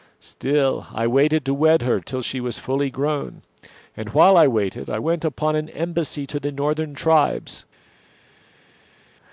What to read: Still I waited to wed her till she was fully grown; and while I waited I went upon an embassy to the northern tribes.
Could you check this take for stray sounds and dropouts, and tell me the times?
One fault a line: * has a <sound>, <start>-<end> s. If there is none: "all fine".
all fine